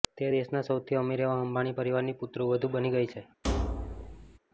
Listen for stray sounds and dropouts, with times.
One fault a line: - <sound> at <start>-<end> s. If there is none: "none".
- thud at 3.4-4.4 s